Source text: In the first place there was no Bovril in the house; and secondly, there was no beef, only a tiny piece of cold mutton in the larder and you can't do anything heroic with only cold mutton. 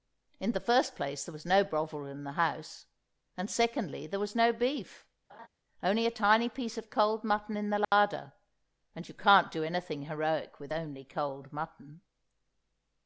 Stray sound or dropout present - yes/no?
yes